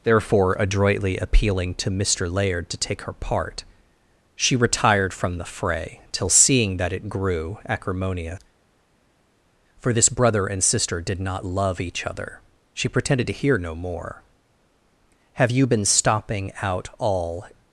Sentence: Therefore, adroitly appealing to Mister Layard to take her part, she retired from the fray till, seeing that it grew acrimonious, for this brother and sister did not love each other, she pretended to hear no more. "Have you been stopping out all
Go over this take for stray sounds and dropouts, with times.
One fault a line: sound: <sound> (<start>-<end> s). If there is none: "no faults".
no faults